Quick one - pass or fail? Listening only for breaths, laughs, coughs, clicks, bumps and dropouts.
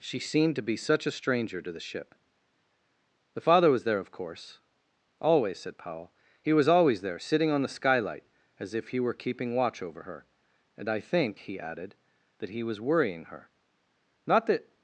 pass